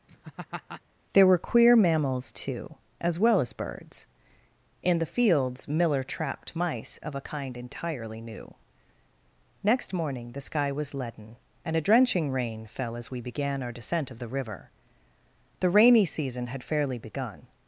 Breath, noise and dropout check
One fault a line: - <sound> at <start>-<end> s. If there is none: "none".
- laugh at 0.1-0.8 s